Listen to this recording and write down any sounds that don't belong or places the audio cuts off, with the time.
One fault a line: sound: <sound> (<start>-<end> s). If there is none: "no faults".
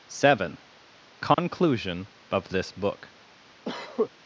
sound: dropout (1.3-1.4 s)
sound: cough (3.6-4.1 s)